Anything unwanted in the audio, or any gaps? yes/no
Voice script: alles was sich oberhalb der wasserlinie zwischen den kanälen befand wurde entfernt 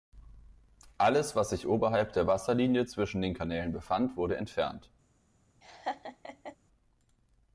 yes